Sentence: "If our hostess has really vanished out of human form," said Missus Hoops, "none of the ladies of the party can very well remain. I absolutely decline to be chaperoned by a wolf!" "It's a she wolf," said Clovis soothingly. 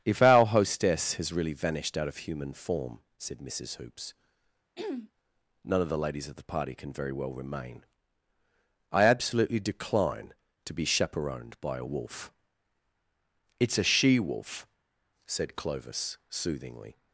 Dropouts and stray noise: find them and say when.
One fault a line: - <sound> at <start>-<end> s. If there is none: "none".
- throat clearing at 4.8-5.1 s